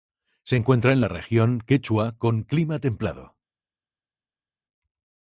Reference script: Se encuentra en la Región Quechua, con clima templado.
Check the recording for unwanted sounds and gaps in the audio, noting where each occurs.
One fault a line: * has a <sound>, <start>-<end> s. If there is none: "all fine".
all fine